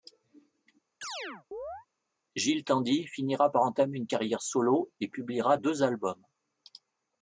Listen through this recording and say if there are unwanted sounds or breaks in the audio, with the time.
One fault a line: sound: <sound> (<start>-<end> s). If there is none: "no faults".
sound: chirp (1.0-1.9 s)